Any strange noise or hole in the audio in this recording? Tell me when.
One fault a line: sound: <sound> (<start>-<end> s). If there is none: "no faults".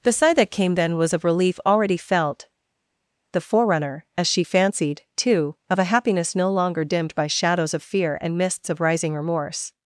no faults